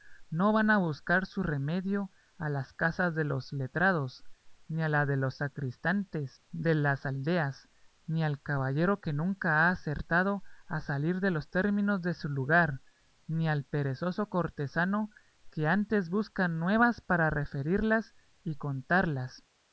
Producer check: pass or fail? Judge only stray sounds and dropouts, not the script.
pass